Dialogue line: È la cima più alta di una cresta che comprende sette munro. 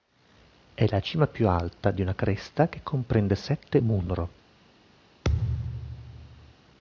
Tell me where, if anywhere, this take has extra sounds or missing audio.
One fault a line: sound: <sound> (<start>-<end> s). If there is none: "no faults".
sound: thud (5.2-6.5 s)